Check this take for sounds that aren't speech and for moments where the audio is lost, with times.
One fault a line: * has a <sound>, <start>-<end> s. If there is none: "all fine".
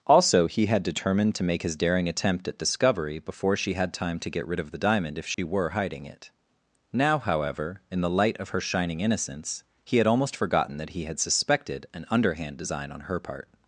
* has a dropout, 5.3-5.4 s